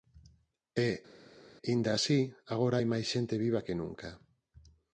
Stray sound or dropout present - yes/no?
no